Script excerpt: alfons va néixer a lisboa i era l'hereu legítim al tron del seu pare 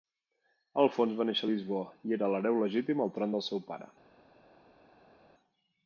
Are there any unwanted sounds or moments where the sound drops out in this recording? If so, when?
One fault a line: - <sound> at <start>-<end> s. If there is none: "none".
none